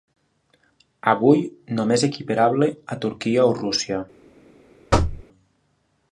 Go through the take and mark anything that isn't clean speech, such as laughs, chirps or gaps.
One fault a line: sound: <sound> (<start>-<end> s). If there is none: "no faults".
sound: thud (4.9-5.2 s)